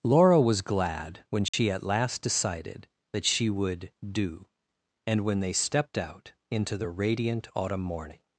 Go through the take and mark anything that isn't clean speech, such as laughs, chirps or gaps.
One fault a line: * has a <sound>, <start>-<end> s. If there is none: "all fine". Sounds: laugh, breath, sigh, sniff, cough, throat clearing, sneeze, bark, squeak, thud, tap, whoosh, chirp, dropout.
* has a dropout, 1.5-1.5 s